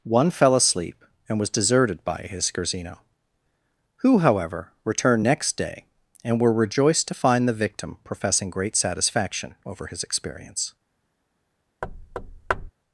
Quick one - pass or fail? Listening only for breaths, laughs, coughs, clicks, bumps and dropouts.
fail